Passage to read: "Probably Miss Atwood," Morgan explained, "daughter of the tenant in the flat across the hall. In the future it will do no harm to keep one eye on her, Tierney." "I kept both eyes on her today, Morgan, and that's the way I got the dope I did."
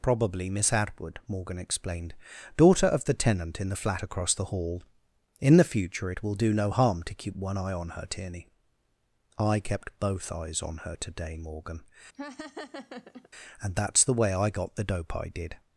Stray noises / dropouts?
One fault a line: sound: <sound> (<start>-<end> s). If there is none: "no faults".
sound: laugh (12.1-13.3 s)